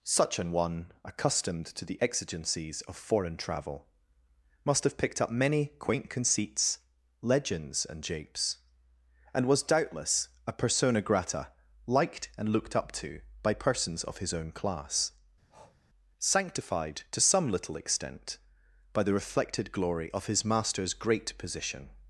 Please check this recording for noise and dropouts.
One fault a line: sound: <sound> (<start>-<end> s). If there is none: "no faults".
sound: breath (15.5-15.8 s)